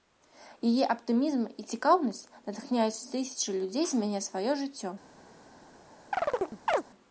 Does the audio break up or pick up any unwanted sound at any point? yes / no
yes